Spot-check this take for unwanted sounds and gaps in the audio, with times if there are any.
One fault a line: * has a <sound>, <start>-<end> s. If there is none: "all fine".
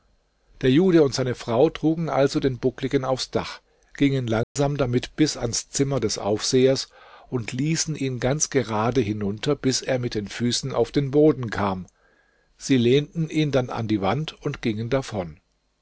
* has a dropout, 4.4-4.6 s